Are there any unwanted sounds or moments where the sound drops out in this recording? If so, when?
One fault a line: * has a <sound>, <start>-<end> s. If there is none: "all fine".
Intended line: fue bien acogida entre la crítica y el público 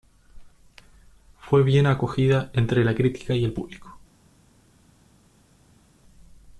all fine